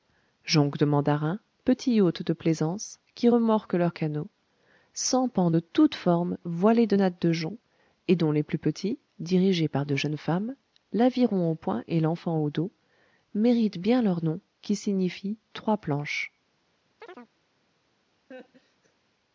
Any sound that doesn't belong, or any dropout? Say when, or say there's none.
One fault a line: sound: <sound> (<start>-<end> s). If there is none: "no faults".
sound: chirp (17.0-17.3 s)
sound: laugh (18.3-18.9 s)